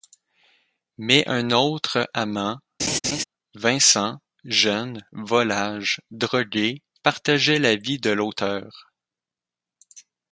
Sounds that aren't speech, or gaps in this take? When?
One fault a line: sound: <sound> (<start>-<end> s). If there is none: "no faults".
sound: laugh (2.8-3.2 s)